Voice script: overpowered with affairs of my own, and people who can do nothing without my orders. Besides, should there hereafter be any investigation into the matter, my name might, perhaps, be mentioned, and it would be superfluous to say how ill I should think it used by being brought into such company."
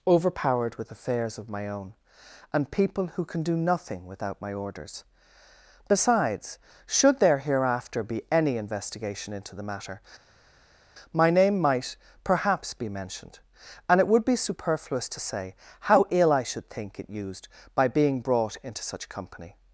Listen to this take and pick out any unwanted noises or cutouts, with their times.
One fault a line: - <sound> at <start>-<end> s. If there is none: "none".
none